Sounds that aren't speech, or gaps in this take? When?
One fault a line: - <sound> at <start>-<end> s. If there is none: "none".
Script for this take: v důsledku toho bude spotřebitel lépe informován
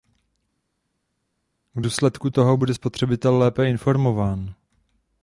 none